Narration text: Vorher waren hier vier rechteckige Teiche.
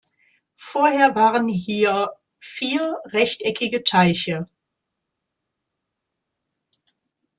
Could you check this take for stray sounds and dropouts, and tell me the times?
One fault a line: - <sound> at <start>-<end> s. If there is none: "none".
none